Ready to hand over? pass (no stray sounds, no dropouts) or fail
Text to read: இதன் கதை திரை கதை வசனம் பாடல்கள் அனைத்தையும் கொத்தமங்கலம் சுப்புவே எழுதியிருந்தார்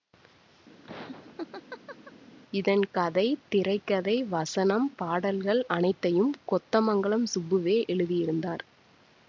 fail